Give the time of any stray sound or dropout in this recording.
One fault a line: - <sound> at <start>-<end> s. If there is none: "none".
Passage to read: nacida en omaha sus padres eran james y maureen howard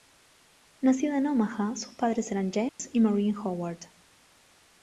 - dropout at 2.7-2.8 s